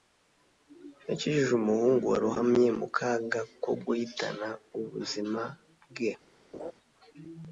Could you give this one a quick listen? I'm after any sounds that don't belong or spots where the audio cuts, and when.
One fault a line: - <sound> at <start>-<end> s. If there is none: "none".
- laugh at 6.5-6.7 s